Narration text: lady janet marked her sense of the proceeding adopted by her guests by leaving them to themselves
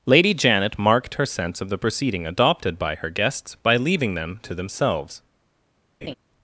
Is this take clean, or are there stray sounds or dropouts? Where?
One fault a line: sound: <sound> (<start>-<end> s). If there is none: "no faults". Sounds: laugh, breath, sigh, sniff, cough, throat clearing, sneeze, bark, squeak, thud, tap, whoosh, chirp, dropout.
sound: laugh (6.0-6.1 s)